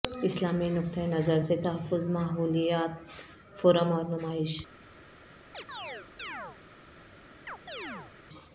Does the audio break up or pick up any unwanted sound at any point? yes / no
yes